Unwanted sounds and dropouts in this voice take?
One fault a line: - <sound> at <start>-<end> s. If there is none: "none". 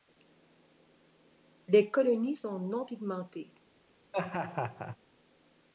- laugh at 4.1-5.0 s